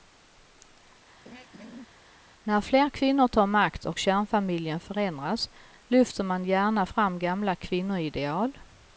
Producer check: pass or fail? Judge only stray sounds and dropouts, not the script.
fail